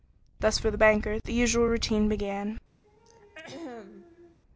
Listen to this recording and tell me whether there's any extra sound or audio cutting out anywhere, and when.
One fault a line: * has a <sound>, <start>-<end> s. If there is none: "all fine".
* has a throat clearing, 2.8-4.4 s